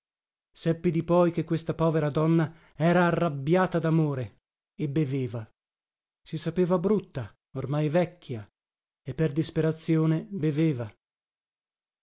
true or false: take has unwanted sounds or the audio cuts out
false